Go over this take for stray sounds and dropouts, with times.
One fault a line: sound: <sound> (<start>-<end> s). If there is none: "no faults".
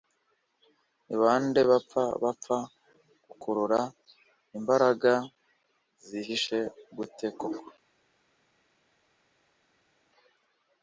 no faults